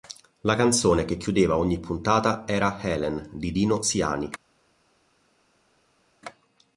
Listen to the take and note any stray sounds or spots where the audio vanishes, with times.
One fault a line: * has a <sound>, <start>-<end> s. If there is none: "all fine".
all fine